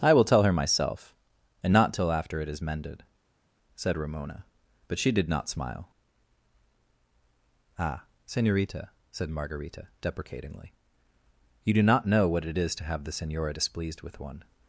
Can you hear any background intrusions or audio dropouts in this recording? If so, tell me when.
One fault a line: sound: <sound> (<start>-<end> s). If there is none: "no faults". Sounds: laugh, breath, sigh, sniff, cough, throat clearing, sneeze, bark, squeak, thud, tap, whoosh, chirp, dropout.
no faults